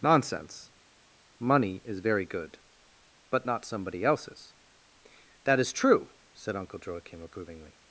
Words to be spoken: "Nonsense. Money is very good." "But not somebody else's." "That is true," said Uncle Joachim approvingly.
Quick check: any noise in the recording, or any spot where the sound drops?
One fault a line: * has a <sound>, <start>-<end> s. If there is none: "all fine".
all fine